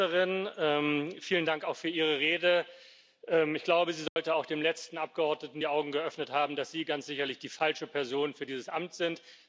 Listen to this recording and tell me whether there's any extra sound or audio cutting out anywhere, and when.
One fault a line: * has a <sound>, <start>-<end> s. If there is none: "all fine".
* has a dropout, 4.1-4.2 s